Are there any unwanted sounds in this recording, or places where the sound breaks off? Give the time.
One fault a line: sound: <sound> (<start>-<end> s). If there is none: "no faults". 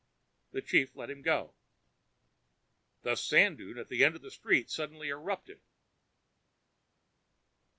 no faults